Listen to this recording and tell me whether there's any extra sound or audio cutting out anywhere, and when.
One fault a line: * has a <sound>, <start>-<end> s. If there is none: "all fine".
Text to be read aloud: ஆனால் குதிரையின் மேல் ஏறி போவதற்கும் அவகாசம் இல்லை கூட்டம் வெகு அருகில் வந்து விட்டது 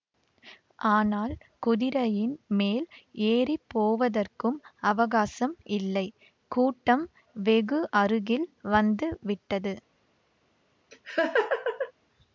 * has a laugh, 10.9-11.9 s